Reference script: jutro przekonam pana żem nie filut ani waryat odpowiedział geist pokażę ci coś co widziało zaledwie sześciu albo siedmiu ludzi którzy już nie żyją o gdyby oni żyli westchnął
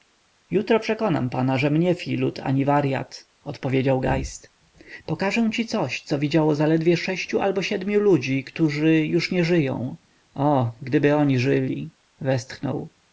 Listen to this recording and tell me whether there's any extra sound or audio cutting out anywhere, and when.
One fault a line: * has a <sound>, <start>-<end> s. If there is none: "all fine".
all fine